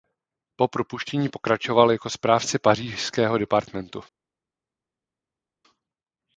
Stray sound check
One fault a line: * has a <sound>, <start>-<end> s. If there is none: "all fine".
all fine